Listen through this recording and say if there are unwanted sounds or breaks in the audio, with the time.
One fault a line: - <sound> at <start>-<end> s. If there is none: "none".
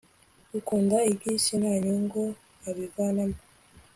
none